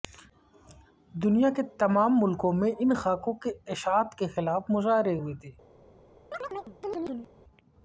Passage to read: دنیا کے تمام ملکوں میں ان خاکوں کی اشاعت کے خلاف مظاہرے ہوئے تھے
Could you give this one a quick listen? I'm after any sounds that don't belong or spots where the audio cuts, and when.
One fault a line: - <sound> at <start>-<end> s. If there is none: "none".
- chirp at 6.3-7.3 s